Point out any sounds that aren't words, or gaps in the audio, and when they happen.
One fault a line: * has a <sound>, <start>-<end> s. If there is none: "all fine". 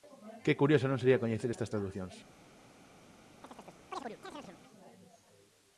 * has a chirp, 3.4-4.6 s